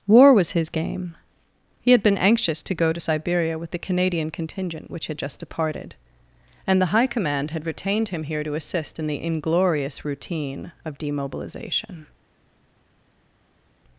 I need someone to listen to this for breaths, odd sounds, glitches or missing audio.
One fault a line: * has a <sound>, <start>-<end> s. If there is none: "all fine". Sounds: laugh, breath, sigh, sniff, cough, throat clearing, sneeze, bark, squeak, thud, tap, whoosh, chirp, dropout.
all fine